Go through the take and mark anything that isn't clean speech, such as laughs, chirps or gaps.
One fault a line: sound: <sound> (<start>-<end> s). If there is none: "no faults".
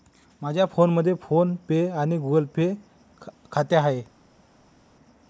no faults